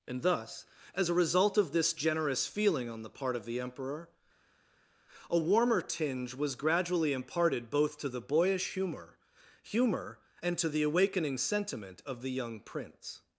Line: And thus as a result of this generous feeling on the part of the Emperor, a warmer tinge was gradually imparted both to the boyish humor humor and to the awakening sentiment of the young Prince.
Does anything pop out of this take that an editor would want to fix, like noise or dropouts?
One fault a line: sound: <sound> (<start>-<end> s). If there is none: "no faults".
no faults